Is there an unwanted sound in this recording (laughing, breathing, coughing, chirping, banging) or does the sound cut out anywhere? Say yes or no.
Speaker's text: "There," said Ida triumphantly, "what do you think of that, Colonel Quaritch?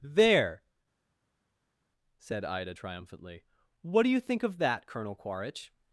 no